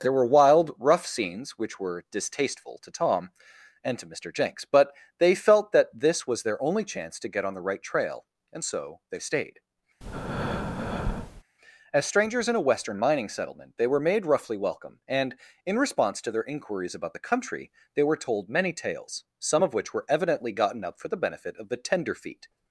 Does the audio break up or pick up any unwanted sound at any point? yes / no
yes